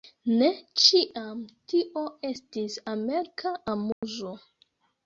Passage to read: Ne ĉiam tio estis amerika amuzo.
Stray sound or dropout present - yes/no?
yes